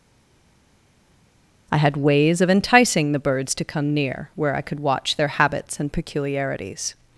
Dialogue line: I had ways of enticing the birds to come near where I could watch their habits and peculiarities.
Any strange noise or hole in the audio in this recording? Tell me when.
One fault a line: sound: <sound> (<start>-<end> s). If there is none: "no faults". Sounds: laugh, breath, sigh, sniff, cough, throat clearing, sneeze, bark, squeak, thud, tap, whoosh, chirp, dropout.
no faults